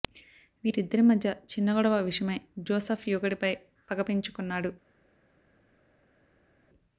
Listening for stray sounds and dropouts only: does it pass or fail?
pass